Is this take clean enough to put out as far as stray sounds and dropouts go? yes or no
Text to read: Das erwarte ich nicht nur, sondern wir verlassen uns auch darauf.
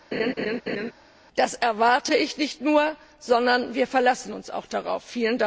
no